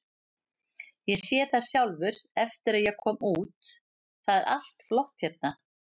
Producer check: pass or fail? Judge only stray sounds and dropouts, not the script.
pass